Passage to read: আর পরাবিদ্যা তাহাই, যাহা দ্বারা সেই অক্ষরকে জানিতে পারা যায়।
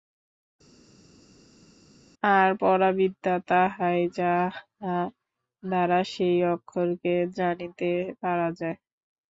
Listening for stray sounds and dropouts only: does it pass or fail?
pass